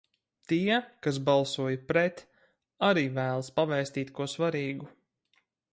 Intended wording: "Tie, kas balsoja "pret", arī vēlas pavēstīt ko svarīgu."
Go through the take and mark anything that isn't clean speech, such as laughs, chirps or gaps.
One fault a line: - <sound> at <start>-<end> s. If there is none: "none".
none